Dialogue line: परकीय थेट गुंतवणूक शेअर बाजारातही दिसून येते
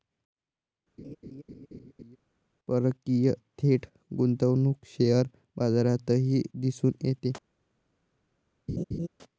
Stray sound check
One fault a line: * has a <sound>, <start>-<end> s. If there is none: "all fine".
* has a laugh, 1.0-2.2 s
* has a laugh, 8.7-9.1 s